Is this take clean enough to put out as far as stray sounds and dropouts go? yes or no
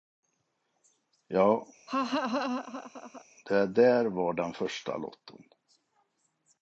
no